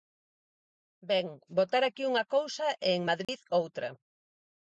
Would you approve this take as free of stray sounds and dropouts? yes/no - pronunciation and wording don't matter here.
no